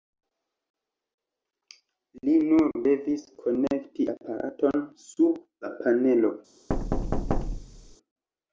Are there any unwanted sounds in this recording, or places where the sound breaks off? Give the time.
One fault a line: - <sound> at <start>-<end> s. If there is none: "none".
- thud at 6.7-8.0 s